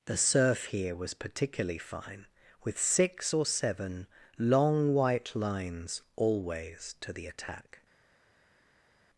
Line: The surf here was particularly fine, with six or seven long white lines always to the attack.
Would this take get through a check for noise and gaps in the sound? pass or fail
pass